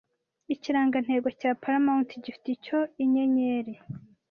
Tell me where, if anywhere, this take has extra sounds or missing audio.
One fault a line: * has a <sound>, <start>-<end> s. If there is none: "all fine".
all fine